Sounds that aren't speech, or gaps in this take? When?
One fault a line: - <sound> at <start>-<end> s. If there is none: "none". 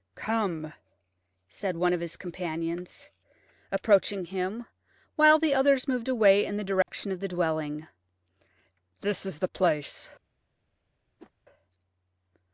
- dropout at 6.8-6.9 s
- whoosh at 11.2-11.3 s